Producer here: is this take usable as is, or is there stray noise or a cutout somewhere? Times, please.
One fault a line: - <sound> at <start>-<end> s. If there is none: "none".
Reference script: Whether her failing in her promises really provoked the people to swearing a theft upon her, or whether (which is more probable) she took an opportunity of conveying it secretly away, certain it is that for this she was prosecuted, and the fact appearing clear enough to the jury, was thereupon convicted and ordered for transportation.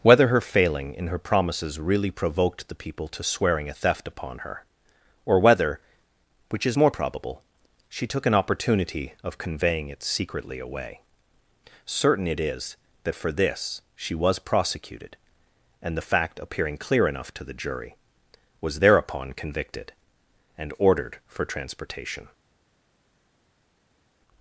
none